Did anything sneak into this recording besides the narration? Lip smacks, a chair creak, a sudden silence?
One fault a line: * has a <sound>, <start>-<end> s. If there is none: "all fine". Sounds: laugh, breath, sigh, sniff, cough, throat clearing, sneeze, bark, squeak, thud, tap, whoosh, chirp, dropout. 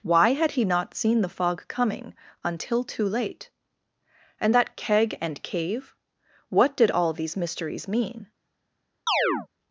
* has a chirp, 9.1-9.5 s